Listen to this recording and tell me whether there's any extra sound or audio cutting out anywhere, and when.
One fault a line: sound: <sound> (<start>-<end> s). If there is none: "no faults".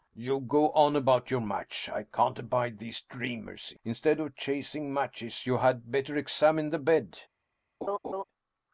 sound: laugh (7.8-8.2 s)